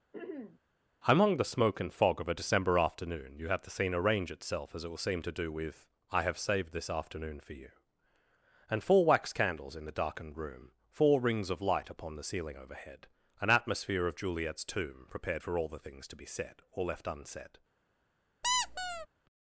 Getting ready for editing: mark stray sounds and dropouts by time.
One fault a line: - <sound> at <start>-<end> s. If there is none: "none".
- throat clearing at 0.1-0.6 s
- squeak at 18.4-19.1 s